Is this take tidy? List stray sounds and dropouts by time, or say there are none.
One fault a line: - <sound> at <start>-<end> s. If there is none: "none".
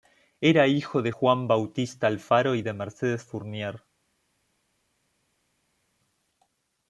none